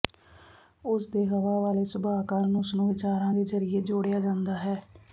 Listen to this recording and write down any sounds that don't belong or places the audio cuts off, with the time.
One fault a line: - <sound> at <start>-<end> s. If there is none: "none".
none